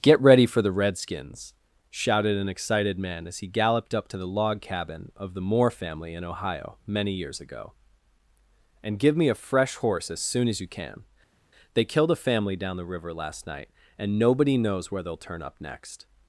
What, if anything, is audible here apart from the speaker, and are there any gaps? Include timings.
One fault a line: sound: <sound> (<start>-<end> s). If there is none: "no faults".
no faults